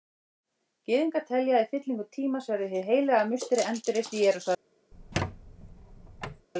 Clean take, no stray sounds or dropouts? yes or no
no